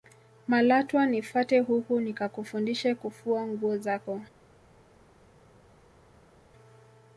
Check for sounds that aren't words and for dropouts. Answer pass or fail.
pass